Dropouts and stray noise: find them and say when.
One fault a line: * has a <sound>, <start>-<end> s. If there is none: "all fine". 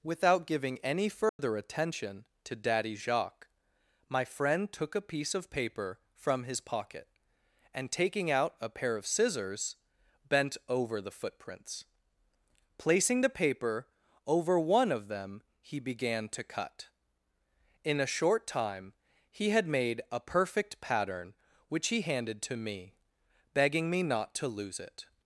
* has a dropout, 1.3-1.4 s